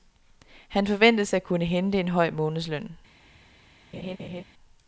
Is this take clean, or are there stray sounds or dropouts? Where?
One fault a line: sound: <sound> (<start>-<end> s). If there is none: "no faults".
sound: laugh (3.9-4.4 s)